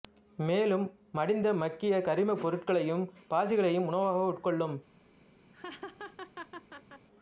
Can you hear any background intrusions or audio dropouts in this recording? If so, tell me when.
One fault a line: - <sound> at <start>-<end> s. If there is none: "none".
- laugh at 5.5-7.1 s